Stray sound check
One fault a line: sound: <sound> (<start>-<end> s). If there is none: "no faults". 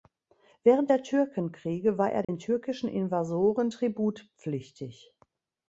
sound: dropout (2.2-2.3 s)